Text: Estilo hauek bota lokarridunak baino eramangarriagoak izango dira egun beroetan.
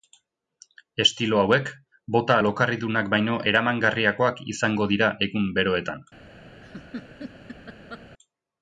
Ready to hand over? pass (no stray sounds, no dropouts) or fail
fail